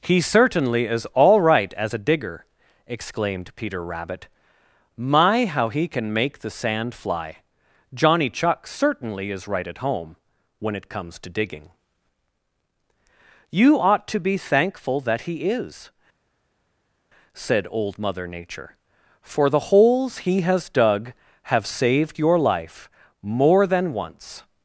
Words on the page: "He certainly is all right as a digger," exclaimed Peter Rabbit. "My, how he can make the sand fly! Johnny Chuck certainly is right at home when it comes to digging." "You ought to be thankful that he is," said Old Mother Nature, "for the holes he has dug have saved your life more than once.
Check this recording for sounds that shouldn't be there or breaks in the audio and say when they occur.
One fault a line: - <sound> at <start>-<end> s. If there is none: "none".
none